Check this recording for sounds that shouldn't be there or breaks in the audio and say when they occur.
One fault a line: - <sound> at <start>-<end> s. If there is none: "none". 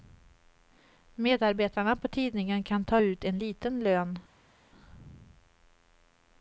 none